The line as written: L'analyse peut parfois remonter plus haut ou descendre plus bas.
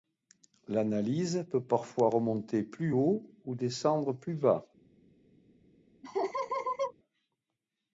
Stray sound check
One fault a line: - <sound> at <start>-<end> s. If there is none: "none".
- laugh at 6.0-6.9 s